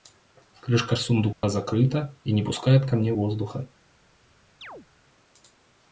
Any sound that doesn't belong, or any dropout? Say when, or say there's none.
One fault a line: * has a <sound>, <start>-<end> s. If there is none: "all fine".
* has a dropout, 1.3-1.4 s
* has a chirp, 4.6-4.9 s